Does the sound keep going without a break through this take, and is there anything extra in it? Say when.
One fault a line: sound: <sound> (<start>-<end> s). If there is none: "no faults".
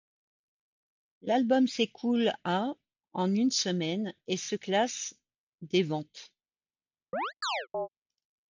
sound: chirp (7.1-7.9 s)